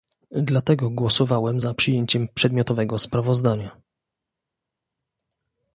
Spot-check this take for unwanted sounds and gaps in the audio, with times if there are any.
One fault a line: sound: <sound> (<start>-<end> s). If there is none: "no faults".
no faults